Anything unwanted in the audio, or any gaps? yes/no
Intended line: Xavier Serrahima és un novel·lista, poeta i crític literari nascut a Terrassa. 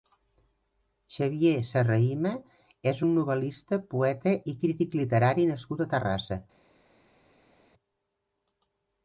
no